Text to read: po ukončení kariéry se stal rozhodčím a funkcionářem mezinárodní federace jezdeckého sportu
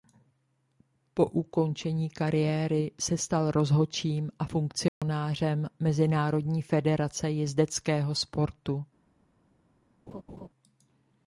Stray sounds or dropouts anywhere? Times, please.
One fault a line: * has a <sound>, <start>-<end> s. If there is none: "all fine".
* has a dropout, 4.9-5.0 s
* has a laugh, 10.1-10.5 s